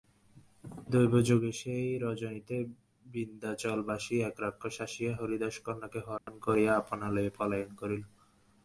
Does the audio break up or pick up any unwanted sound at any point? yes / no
yes